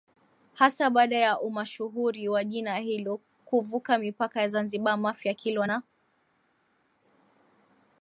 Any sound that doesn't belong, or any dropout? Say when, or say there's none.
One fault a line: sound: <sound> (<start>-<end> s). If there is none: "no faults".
no faults